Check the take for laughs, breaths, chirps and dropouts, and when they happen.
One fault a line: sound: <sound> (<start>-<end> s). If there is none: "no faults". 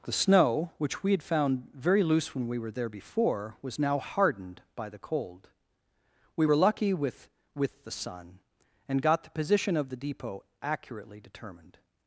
no faults